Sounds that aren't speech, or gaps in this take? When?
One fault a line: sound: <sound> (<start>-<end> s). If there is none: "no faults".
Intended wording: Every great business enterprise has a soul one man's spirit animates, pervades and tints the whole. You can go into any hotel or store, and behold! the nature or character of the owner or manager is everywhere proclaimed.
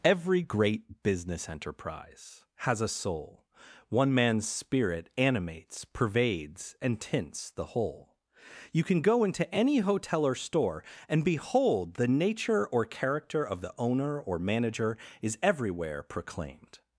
no faults